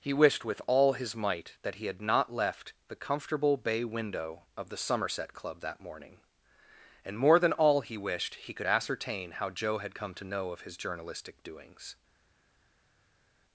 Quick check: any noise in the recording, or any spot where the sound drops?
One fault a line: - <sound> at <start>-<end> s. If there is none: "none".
none